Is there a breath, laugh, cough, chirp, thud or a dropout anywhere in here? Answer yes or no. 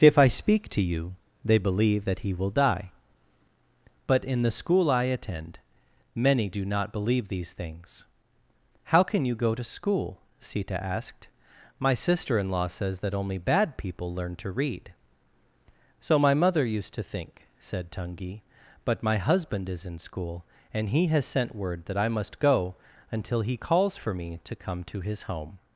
no